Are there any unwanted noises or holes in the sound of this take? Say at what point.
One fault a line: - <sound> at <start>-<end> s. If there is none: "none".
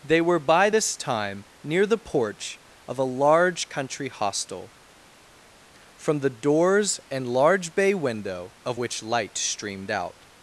none